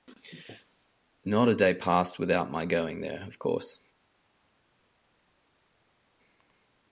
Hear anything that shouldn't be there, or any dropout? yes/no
no